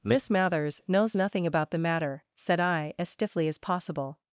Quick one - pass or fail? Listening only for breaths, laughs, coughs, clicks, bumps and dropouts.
pass